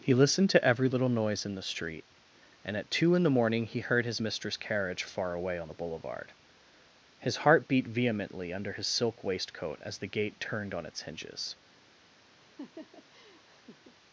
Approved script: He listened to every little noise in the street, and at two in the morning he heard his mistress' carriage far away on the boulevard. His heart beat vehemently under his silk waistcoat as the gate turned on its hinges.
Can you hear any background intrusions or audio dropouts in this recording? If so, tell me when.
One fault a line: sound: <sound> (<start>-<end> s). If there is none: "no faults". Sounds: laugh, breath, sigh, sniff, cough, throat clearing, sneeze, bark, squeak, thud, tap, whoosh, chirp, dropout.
sound: laugh (12.4-14.0 s)